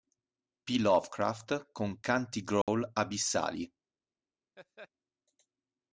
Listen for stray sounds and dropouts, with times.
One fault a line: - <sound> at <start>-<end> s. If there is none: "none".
- dropout at 2.6-2.7 s
- laugh at 4.6-4.9 s